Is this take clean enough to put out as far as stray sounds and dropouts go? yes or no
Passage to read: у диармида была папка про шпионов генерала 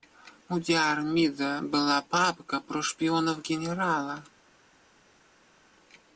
yes